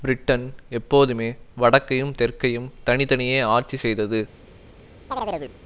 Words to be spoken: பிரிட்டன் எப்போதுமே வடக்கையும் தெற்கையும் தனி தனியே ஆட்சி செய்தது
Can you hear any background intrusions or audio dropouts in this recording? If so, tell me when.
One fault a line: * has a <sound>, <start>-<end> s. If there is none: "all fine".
* has a chirp, 5.1-5.6 s